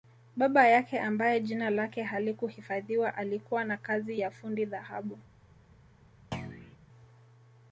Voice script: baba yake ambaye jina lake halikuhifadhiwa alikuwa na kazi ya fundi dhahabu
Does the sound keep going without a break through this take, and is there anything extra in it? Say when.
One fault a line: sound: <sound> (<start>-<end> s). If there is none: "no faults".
sound: thud (6.3-6.8 s)